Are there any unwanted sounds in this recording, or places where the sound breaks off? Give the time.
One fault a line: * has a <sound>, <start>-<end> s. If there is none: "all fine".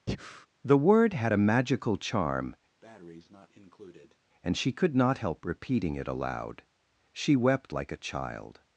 * has a breath, 0.1-0.5 s
* has a breath, 2.8-4.2 s